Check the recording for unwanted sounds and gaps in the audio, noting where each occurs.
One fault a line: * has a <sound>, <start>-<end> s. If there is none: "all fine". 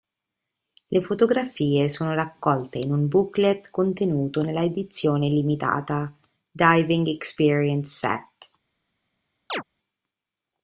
* has a chirp, 9.5-9.6 s